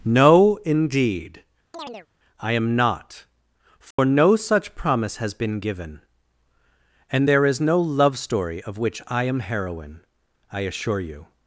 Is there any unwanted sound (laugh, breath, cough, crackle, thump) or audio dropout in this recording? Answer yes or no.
yes